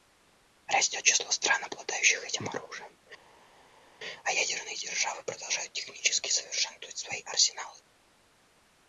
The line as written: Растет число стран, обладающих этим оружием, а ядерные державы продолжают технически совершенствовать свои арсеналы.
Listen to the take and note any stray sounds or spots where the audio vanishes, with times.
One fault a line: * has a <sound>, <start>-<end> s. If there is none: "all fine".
all fine